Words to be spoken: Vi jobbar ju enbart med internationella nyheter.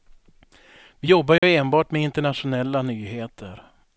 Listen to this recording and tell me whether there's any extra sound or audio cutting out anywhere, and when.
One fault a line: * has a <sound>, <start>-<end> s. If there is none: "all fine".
* has a dropout, 1.4-1.4 s